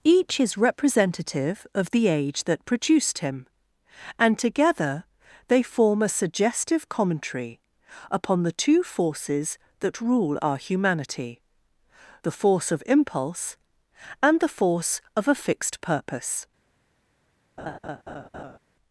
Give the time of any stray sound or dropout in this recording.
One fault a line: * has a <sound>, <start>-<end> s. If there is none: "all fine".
* has a laugh, 17.6-18.6 s